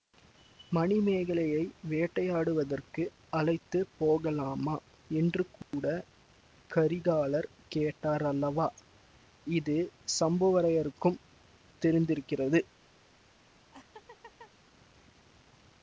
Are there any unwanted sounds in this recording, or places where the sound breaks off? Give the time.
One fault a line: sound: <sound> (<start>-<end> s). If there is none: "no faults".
sound: dropout (5.6-5.7 s)
sound: laugh (13.7-14.5 s)